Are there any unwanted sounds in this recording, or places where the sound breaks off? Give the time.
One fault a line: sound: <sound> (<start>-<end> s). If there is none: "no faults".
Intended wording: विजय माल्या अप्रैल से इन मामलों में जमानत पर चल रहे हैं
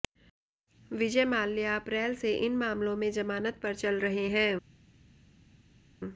no faults